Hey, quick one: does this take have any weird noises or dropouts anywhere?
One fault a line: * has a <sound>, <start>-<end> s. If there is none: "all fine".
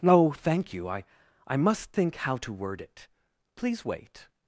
all fine